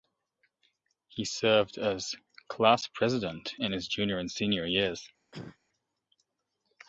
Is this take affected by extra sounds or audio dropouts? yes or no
yes